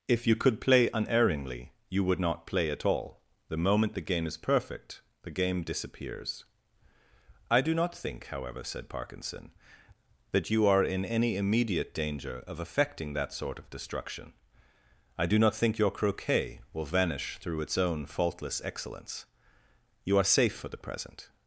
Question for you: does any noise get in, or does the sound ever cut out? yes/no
no